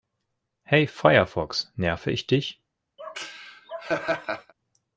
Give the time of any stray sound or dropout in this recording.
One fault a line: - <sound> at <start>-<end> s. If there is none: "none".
- laugh at 3.0-4.5 s